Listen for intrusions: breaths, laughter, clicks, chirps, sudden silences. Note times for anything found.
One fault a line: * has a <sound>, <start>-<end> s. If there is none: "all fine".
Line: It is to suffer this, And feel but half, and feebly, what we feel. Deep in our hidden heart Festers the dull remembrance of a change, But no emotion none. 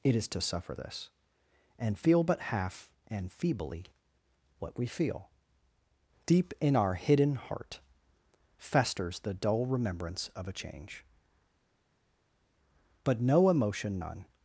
all fine